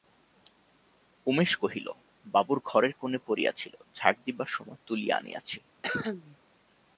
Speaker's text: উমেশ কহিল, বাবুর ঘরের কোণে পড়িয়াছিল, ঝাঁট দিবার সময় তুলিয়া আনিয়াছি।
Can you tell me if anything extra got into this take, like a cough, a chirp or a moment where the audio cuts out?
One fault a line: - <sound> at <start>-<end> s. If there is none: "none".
- cough at 5.8-6.4 s